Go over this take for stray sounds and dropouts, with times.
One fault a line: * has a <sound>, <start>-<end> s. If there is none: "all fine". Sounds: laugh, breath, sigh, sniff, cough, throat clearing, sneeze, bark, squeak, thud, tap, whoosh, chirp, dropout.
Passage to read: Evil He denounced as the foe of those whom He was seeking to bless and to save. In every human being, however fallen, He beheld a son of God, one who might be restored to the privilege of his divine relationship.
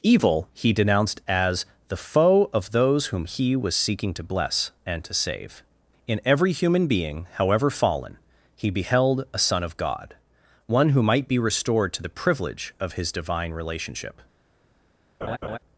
* has a laugh, 15.2-15.6 s